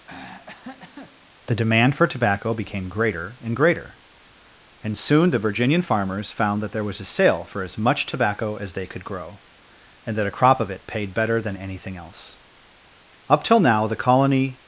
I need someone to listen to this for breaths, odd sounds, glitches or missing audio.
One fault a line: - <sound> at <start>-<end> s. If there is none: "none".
- throat clearing at 0.1-1.3 s